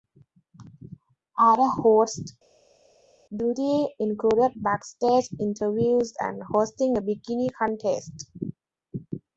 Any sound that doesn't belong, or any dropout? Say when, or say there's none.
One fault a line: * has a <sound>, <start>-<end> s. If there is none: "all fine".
all fine